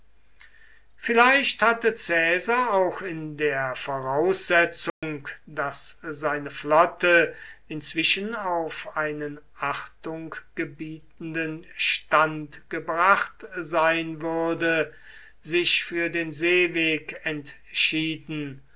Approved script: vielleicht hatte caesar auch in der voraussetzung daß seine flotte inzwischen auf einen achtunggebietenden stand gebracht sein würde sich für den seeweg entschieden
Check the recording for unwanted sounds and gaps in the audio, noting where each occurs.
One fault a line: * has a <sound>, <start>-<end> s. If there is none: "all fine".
* has a dropout, 4.9-5.0 s